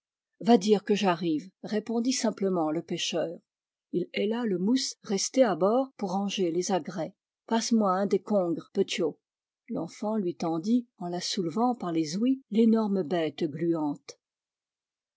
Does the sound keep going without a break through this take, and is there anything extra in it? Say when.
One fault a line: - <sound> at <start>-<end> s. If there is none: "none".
none